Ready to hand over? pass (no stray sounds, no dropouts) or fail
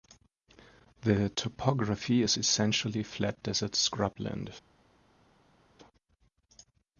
pass